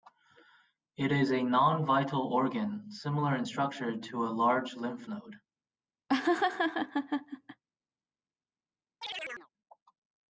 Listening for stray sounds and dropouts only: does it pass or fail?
fail